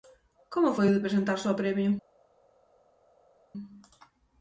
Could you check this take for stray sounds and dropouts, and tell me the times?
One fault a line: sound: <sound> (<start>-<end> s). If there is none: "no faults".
no faults